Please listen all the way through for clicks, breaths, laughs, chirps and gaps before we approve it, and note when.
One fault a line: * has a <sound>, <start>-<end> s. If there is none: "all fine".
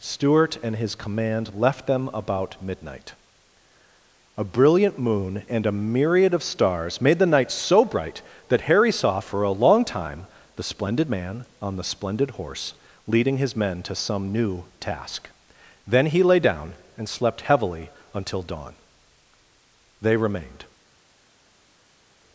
all fine